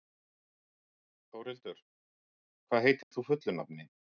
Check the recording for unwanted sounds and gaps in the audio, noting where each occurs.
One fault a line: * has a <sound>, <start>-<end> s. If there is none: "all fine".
* has a dropout, 3.0-3.1 s